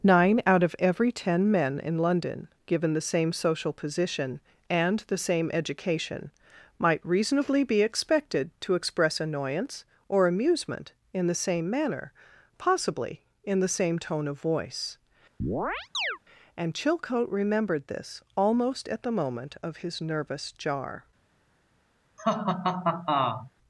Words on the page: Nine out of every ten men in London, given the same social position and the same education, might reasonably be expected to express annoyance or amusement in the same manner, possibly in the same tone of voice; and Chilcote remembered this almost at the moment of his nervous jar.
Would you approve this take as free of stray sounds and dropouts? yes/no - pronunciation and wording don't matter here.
no